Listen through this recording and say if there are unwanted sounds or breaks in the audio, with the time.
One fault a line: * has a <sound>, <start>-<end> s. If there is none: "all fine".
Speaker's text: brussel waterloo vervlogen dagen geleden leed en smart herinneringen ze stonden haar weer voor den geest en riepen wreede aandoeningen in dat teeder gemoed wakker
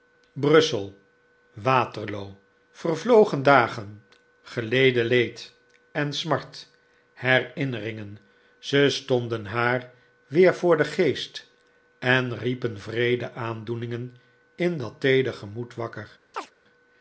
* has a chirp, 16.3-16.5 s